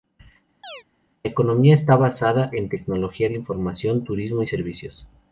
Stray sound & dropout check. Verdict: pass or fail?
fail